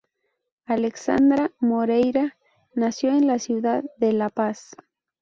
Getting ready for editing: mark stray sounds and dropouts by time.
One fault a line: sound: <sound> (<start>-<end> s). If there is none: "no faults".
no faults